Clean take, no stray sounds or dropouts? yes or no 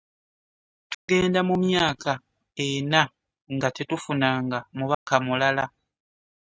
no